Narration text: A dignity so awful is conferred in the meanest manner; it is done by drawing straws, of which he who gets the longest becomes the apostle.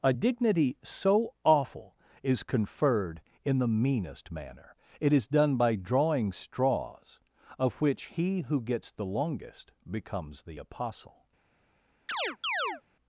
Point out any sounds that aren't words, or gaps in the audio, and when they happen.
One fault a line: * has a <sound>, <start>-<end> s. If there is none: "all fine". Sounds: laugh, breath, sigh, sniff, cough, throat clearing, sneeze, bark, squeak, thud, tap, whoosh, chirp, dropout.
* has a chirp, 12.1-12.8 s